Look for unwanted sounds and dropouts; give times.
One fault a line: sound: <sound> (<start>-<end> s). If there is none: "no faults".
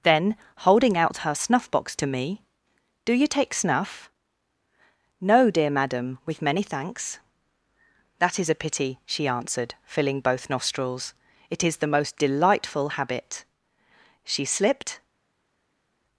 no faults